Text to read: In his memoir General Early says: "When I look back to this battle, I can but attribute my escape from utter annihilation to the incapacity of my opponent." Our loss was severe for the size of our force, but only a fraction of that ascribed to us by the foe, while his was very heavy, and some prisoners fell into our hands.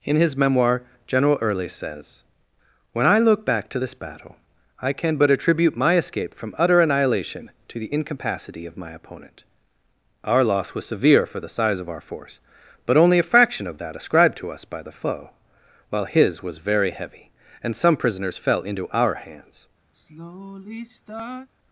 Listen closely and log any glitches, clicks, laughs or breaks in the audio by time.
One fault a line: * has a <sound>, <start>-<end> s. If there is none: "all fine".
* has a sigh, 19.9-21.5 s